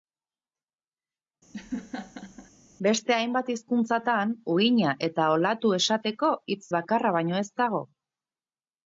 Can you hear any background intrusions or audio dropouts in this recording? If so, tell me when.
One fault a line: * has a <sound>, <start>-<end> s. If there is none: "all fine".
* has a laugh, 1.5-2.5 s